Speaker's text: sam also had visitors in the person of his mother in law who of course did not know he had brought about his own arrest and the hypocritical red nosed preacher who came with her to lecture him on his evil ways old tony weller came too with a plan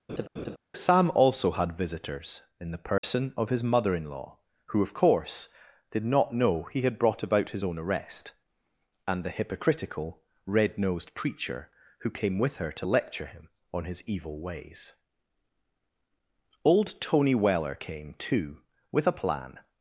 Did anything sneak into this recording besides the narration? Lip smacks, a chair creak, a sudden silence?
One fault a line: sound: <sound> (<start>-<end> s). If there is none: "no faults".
sound: laugh (0.1-0.6 s)
sound: dropout (3.0-3.0 s)